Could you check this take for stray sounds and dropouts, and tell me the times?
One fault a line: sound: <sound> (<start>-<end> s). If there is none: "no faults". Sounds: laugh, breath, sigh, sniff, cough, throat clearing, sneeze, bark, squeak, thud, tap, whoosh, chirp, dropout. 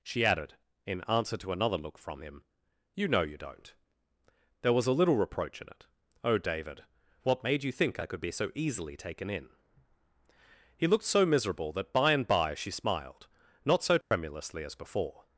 sound: dropout (14.0-14.1 s)